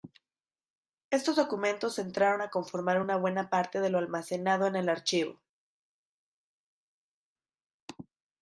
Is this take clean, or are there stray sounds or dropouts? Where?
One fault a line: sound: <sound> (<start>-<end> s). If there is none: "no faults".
no faults